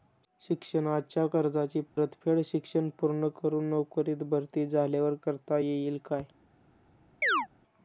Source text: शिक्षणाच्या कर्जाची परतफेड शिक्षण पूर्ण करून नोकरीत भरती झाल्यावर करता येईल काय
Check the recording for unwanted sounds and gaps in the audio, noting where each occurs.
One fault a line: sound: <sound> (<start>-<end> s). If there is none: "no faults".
sound: dropout (1.9-2.0 s)
sound: chirp (7.2-7.5 s)